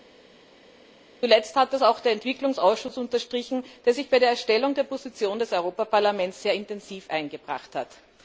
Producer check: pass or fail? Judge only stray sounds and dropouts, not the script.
pass